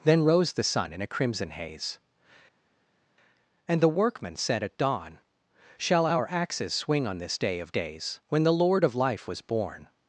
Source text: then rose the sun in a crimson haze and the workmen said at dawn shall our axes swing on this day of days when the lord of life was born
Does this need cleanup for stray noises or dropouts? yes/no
no